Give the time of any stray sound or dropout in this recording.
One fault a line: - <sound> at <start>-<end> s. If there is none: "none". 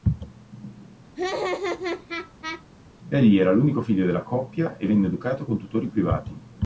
- laugh at 1.2-2.6 s